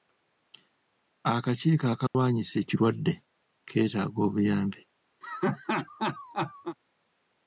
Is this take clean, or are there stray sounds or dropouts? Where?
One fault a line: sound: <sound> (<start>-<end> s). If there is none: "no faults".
sound: dropout (2.1-2.1 s)
sound: laugh (5.2-6.8 s)